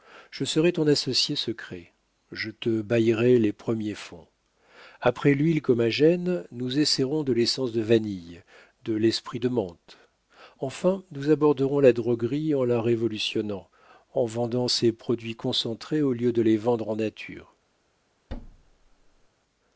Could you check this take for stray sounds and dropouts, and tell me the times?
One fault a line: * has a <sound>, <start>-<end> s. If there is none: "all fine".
* has a thud, 18.3-19.3 s